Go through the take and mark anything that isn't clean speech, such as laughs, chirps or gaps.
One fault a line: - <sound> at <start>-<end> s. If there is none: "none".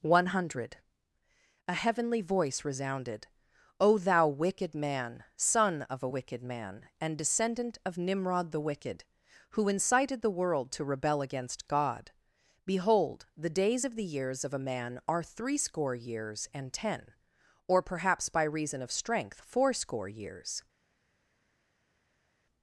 none